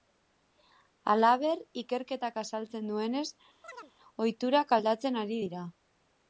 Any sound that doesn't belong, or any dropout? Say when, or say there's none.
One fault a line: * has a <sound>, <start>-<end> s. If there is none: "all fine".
* has a chirp, 3.6-3.9 s